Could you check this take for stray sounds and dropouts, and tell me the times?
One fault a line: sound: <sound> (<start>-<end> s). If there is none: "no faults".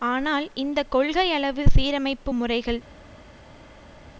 no faults